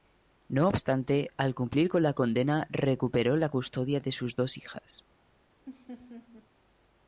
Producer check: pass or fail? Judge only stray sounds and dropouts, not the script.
fail